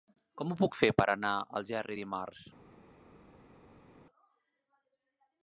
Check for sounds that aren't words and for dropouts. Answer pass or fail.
pass